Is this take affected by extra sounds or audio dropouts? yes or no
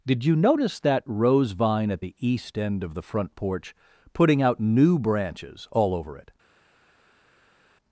no